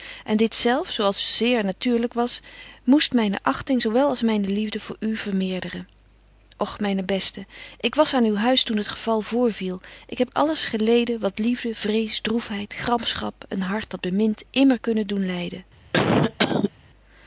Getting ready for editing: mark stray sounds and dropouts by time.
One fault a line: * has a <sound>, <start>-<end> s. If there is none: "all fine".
* has a cough, 15.9-16.7 s